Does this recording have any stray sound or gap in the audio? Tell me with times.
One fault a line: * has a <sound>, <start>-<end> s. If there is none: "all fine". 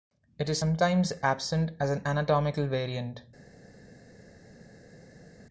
all fine